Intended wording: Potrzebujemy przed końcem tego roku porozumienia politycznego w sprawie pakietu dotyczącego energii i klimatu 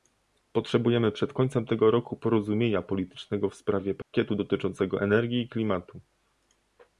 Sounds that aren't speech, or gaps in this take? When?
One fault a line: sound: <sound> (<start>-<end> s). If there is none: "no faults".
sound: dropout (4.0-4.1 s)